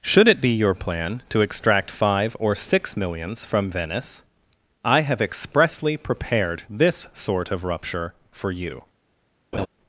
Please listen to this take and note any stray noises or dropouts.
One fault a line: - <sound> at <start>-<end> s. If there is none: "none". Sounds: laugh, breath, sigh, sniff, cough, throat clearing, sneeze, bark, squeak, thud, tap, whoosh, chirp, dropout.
- laugh at 9.5-9.7 s